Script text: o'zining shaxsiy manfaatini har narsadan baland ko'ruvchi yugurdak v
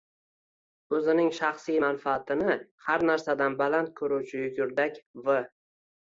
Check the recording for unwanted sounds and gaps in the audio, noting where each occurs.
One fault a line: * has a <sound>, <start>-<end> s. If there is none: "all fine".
all fine